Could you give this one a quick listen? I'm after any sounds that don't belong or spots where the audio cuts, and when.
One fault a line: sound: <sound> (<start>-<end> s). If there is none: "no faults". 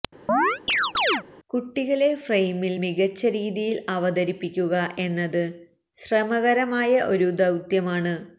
sound: chirp (0.3-1.2 s)